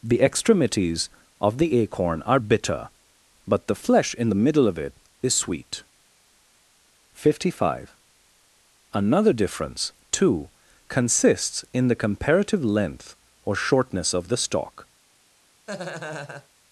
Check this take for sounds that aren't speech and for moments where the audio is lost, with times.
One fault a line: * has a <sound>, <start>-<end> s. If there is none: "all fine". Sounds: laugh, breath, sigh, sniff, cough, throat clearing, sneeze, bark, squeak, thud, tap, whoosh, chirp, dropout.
* has a laugh, 15.7-16.5 s